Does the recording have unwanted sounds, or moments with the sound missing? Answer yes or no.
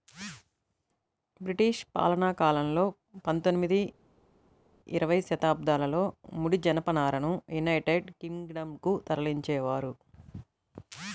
no